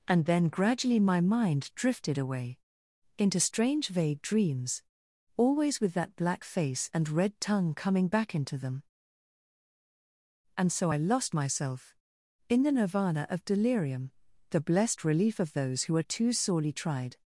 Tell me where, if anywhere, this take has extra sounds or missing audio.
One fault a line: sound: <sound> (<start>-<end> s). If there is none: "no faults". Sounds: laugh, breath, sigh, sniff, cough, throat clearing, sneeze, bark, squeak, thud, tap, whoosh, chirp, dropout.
no faults